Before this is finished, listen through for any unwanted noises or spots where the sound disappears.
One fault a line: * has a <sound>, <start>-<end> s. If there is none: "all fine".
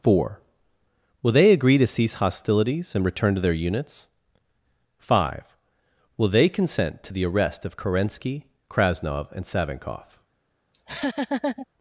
* has a laugh, 10.7-11.7 s